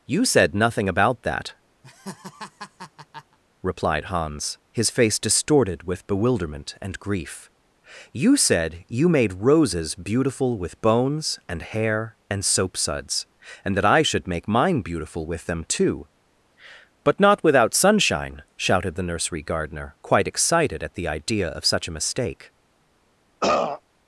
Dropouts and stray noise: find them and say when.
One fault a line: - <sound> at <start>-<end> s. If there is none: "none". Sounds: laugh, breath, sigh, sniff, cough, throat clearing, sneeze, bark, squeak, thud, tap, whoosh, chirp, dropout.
- laugh at 1.8-3.4 s
- throat clearing at 23.4-23.8 s